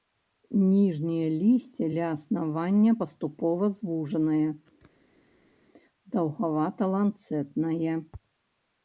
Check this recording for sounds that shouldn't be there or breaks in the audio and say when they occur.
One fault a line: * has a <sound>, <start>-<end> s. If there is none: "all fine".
all fine